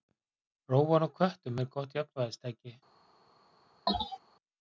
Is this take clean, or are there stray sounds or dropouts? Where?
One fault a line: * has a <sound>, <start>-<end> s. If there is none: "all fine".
* has a sneeze, 3.9-4.2 s